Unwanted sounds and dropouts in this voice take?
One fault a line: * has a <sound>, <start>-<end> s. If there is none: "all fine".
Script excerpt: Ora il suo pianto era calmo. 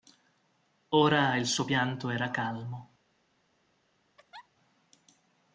* has a laugh, 4.2-4.5 s